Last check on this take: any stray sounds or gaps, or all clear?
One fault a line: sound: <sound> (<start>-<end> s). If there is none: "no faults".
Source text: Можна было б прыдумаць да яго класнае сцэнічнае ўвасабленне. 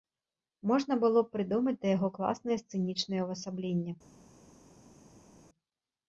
no faults